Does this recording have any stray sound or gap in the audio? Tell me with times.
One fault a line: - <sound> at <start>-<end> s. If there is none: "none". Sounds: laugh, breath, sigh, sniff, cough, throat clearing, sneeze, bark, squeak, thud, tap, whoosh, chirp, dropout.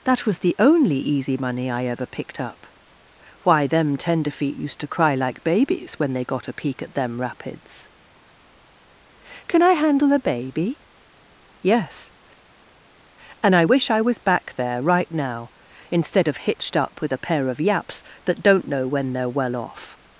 none